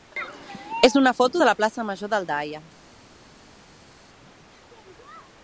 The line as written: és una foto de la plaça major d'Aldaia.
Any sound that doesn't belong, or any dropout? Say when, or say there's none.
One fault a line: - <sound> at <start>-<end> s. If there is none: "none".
none